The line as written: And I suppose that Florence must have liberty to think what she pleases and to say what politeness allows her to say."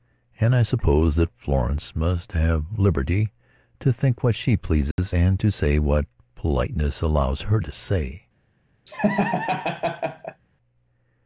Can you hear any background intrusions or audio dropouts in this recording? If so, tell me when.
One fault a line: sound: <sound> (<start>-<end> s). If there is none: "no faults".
sound: dropout (4.9-5.0 s)
sound: laugh (8.9-10.4 s)